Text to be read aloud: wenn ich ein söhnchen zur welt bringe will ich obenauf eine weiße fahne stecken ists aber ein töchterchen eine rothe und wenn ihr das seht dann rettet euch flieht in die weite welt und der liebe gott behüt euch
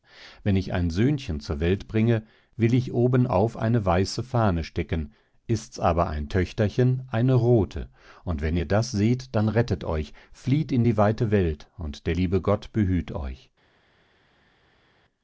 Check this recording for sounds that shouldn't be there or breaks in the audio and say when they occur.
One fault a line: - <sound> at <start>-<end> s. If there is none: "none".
none